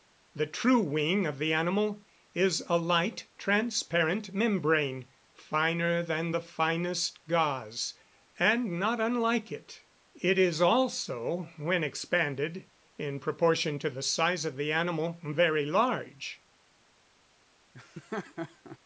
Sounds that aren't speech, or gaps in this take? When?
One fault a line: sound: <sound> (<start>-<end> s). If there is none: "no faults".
sound: laugh (17.7-18.8 s)